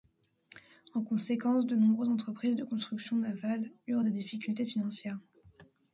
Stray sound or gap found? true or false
false